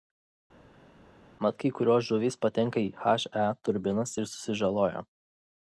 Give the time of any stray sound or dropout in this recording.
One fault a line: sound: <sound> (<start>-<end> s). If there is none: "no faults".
no faults